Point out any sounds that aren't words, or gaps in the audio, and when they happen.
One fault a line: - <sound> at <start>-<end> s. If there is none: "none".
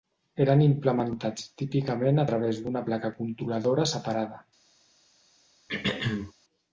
- throat clearing at 5.7-6.3 s